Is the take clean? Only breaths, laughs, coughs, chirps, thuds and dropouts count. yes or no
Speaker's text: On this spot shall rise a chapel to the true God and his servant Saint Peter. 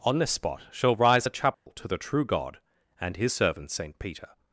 no